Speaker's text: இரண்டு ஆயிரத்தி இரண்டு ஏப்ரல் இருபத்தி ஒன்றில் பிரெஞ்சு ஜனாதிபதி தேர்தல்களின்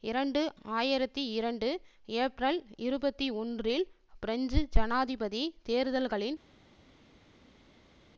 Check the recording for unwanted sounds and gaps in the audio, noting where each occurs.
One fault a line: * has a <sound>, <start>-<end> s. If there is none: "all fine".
all fine